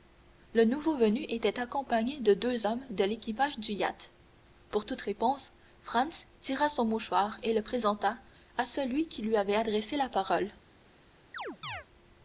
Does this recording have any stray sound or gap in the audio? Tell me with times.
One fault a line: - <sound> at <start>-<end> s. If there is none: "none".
- chirp at 11.3-11.9 s